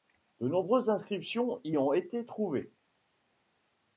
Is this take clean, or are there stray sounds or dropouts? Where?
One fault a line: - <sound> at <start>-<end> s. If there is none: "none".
none